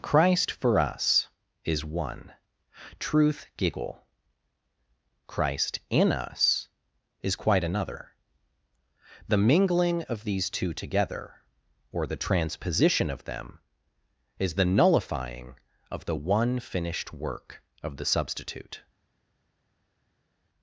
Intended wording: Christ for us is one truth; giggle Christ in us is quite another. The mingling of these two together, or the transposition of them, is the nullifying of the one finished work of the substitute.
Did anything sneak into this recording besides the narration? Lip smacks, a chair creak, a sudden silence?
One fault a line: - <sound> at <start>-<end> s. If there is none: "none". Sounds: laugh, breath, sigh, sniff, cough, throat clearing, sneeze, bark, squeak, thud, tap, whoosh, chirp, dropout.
none